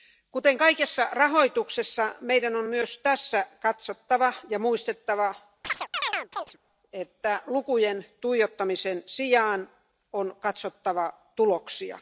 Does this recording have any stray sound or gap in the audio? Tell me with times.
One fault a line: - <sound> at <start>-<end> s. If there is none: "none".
- chirp at 5.6-6.6 s